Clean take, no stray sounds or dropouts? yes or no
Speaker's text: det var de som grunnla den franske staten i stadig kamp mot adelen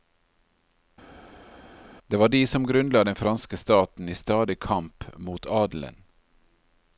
yes